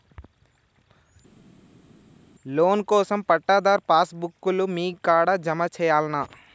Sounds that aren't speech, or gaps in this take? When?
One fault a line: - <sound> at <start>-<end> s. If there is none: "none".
none